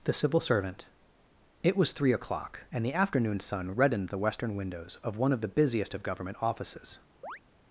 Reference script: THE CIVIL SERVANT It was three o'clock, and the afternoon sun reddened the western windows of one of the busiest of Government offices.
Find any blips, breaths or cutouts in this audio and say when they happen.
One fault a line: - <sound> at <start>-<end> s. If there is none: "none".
- chirp at 7.2-7.4 s